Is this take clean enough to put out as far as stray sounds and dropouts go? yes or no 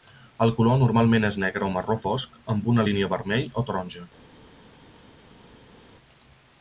yes